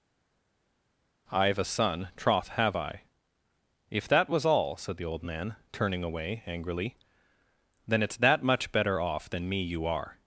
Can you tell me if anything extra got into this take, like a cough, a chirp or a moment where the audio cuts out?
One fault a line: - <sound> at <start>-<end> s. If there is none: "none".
none